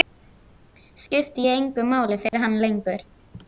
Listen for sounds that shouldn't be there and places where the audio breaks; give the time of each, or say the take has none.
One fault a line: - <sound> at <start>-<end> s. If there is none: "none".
- dropout at 2.3-2.3 s